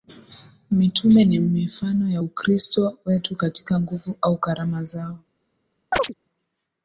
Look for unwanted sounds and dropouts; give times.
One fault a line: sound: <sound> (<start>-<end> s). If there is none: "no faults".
sound: chirp (5.9-6.1 s)